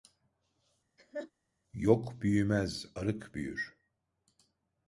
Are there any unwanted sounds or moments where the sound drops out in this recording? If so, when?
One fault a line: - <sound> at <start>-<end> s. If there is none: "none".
- laugh at 1.0-1.3 s